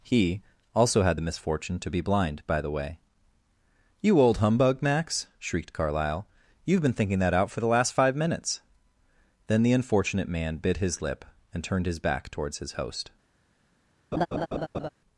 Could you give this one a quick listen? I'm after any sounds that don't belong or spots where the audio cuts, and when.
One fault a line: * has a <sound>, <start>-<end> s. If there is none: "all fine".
* has a laugh, 14.1-14.9 s